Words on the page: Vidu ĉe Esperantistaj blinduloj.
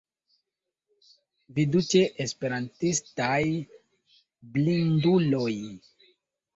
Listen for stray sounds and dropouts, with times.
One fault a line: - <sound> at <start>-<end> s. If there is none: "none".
none